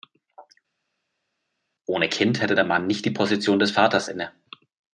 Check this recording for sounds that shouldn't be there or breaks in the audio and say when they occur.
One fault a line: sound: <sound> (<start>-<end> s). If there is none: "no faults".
no faults